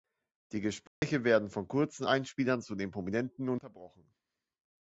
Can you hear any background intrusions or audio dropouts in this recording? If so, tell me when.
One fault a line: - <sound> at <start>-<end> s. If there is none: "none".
- dropout at 0.9-1.0 s